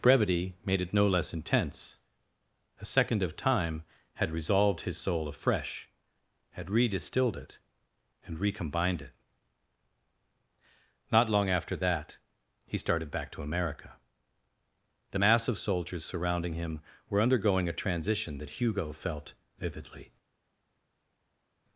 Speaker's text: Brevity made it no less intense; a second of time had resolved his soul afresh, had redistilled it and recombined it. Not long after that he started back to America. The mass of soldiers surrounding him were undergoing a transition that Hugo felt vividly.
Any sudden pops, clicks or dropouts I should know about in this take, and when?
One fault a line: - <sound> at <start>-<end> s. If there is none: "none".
none